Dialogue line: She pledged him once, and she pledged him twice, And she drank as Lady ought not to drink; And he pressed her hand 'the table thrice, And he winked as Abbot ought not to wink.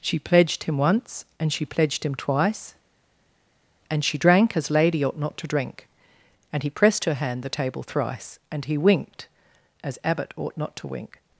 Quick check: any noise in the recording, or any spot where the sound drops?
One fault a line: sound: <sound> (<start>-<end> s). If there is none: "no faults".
no faults